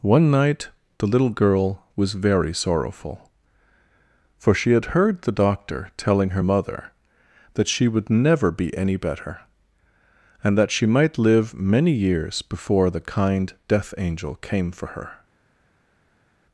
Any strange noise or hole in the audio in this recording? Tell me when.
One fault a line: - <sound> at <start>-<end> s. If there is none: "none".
none